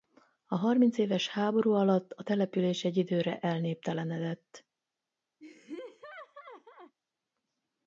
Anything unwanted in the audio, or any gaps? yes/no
yes